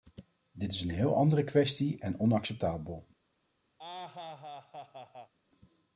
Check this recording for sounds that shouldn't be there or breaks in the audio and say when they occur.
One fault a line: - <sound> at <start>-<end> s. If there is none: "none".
- laugh at 3.8-5.3 s